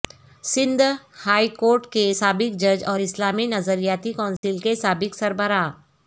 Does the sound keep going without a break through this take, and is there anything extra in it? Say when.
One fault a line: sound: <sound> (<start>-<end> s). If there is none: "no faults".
sound: dropout (4.4-4.4 s)